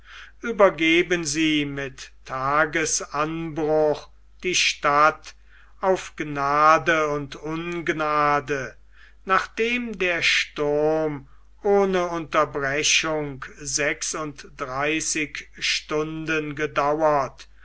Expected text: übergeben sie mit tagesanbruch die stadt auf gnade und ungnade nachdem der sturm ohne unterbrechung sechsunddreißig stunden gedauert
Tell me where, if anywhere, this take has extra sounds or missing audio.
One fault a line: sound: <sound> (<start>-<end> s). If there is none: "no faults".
no faults